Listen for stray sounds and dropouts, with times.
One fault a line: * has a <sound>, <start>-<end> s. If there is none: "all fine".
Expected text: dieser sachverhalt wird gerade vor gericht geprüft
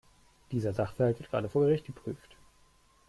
all fine